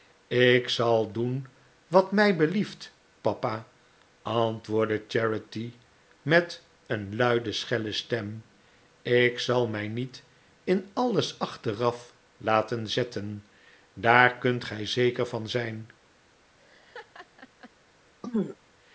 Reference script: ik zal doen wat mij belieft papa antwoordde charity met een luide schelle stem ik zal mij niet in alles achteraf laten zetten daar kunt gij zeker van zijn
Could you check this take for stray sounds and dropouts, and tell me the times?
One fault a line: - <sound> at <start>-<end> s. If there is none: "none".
- laugh at 16.6-17.7 s
- throat clearing at 18.2-18.6 s